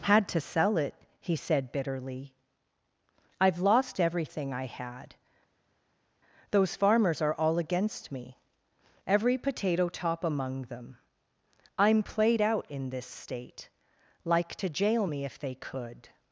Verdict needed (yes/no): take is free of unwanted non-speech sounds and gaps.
yes